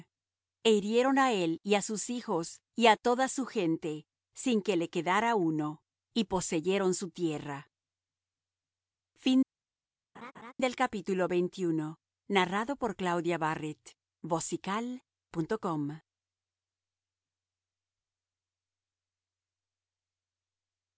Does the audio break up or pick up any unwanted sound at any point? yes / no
yes